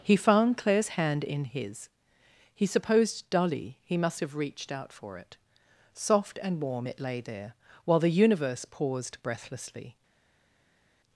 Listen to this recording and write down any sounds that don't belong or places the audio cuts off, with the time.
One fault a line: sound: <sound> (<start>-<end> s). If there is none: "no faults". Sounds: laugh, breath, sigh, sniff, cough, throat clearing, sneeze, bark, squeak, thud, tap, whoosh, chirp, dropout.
no faults